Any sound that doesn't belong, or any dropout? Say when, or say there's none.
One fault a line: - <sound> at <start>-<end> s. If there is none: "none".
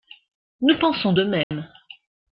- dropout at 1.4-1.5 s